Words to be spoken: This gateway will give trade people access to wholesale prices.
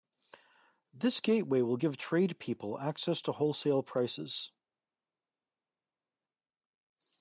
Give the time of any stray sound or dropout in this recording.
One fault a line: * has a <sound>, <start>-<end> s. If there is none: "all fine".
all fine